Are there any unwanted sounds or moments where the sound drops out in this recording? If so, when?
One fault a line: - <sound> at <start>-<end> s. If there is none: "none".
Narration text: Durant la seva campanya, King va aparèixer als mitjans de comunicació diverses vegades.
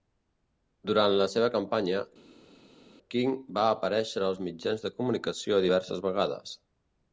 none